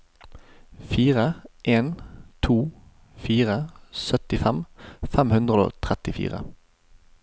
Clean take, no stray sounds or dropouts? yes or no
yes